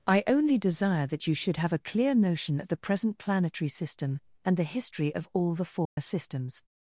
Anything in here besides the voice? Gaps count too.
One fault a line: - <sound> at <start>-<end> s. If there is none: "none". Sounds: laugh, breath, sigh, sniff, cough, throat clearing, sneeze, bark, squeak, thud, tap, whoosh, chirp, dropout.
- dropout at 5.9-6.0 s